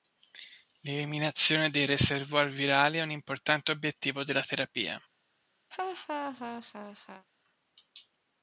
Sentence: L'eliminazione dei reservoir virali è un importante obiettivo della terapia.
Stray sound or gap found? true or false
true